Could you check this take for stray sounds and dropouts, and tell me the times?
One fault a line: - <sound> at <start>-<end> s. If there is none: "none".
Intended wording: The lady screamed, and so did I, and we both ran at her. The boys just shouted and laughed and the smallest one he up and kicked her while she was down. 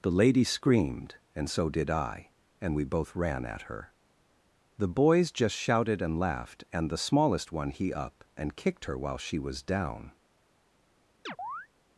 - chirp at 11.3-11.7 s